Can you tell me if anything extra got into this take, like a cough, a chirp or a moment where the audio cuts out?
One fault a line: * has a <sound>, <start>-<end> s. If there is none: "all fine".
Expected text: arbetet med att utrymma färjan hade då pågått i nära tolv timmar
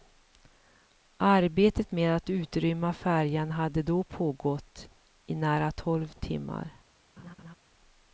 * has a laugh, 7.2-7.5 s